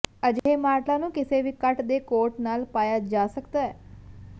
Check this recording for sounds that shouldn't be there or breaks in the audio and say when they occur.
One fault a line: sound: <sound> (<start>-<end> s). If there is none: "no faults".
sound: dropout (0.4-0.5 s)